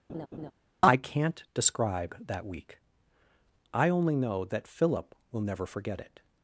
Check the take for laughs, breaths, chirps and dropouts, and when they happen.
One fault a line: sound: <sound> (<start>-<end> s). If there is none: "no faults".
sound: laugh (0.1-0.5 s)